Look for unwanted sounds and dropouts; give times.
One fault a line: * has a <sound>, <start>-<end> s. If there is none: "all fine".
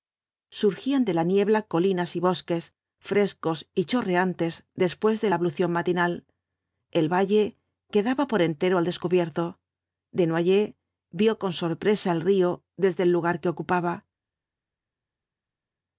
all fine